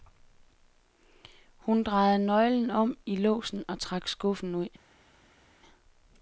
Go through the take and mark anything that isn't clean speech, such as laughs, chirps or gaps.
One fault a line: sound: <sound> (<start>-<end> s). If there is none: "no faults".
no faults